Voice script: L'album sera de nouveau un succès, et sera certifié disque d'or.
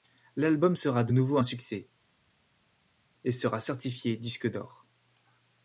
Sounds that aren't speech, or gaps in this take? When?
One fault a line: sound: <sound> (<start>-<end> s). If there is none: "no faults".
no faults